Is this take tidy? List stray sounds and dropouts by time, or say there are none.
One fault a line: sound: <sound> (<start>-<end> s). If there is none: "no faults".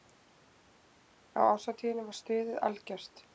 no faults